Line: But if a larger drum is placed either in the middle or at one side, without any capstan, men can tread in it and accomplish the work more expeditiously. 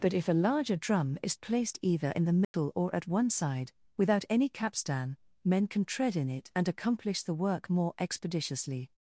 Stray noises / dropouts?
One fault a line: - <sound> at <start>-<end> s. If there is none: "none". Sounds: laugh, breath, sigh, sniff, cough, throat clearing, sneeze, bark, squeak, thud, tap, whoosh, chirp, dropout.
- dropout at 2.4-2.5 s